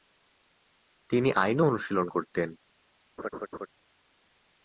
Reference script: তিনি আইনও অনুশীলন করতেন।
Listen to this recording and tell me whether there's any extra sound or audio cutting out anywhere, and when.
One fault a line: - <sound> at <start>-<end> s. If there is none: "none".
- laugh at 3.2-3.7 s